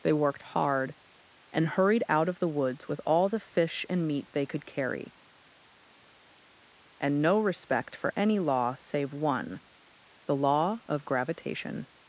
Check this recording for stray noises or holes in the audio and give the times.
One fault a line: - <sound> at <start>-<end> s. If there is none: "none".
none